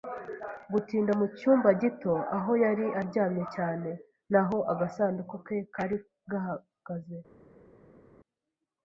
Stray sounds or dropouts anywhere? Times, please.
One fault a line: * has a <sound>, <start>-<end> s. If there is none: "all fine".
all fine